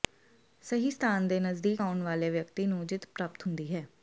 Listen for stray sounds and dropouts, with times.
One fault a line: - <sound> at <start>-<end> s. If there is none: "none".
none